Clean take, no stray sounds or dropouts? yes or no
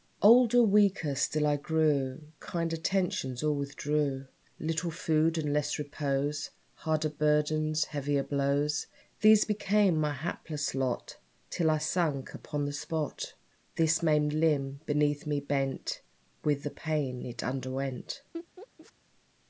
no